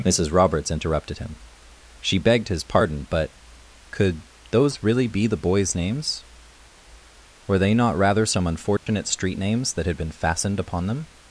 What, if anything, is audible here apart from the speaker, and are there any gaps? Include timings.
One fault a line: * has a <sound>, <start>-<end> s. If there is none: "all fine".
* has a dropout, 8.8-8.9 s